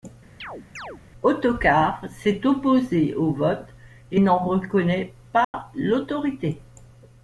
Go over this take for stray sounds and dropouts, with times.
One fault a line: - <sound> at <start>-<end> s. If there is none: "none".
- chirp at 0.4-1.0 s
- dropout at 5.4-5.5 s